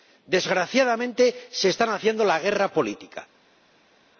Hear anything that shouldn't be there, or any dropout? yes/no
no